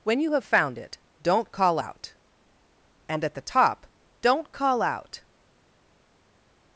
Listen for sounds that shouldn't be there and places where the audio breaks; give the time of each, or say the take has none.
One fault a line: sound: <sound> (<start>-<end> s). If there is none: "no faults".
no faults